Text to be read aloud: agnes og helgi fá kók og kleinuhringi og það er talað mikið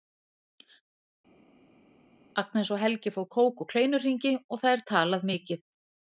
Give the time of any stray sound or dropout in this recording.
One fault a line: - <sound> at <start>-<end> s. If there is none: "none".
none